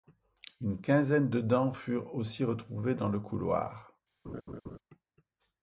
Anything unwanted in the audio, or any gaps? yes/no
yes